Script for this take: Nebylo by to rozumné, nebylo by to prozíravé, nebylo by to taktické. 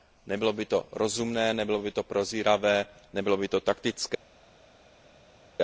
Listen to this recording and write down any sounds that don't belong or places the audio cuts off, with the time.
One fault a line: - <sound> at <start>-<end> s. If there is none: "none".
none